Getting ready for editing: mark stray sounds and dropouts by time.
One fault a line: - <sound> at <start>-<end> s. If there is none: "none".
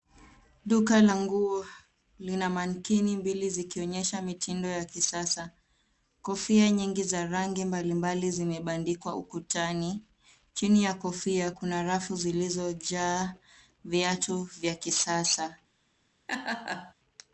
- laugh at 16.3-16.9 s